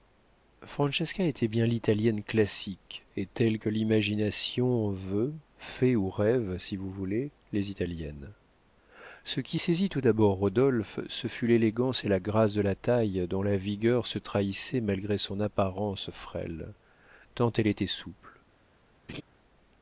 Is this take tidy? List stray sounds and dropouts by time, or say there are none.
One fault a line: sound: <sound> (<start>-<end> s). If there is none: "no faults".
sound: laugh (19.1-19.2 s)